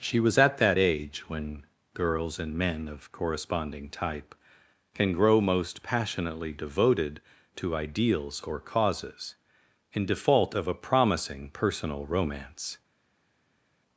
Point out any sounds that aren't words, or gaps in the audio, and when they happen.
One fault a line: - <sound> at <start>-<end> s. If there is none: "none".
none